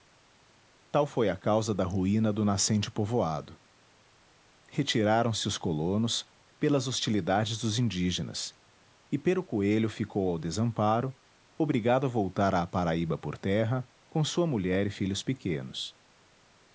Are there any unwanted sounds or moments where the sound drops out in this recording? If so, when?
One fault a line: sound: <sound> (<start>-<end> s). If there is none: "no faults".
no faults